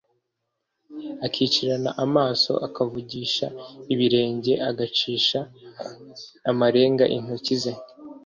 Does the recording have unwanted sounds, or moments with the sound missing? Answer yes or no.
no